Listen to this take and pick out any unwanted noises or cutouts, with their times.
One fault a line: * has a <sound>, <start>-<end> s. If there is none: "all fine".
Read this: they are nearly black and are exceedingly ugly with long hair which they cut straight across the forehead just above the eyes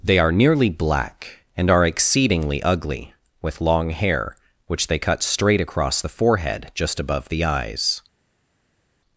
all fine